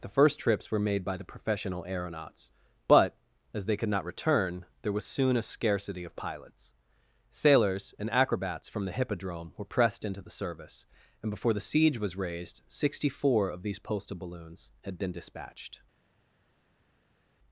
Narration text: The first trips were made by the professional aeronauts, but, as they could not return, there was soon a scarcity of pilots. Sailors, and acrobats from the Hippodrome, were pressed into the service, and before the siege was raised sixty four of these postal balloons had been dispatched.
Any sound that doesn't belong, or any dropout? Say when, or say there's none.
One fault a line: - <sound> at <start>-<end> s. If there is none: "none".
none